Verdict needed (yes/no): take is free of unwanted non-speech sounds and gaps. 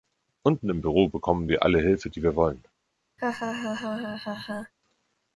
no